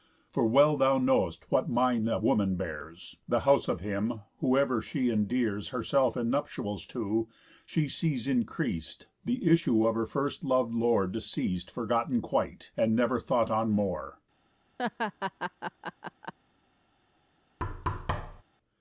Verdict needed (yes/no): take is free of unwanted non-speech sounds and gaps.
no